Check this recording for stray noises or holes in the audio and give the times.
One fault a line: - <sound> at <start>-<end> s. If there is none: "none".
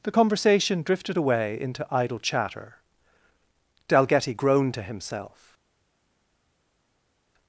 none